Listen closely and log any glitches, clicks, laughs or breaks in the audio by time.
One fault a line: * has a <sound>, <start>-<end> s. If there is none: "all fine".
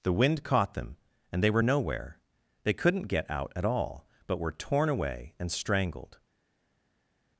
all fine